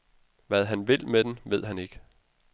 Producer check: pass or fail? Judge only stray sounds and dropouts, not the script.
pass